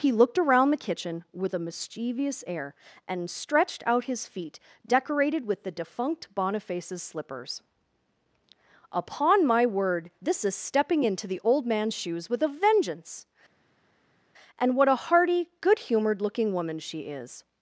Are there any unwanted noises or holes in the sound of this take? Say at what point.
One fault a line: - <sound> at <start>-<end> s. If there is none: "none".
none